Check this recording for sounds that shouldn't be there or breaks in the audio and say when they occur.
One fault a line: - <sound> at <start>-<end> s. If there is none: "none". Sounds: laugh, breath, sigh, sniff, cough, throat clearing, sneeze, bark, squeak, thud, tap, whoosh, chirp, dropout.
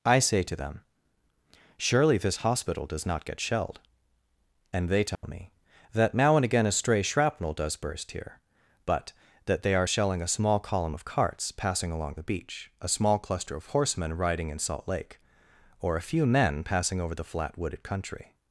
- dropout at 5.1-5.2 s